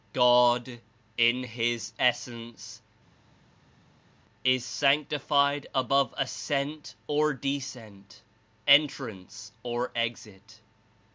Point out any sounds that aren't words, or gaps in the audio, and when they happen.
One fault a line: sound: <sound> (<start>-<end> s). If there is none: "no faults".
no faults